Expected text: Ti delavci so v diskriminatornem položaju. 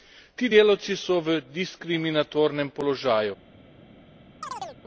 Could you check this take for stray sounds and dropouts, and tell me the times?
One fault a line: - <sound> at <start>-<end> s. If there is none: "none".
- chirp at 4.4-4.8 s